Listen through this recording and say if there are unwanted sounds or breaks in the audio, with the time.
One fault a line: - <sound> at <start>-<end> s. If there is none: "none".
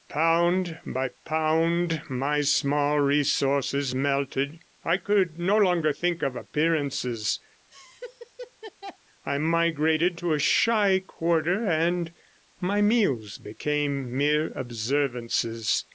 - laugh at 7.7-9.0 s